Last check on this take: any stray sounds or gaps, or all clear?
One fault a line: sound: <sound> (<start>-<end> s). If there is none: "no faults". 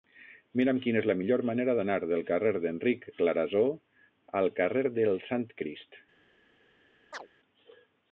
sound: chirp (7.1-7.3 s)